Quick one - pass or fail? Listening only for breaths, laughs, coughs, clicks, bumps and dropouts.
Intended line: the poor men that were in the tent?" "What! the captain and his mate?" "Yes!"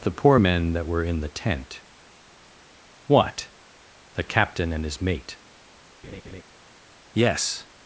fail